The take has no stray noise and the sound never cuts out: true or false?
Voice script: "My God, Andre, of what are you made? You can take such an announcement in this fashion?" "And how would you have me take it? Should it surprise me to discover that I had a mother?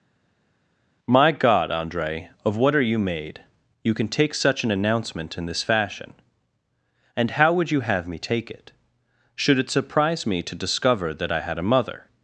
true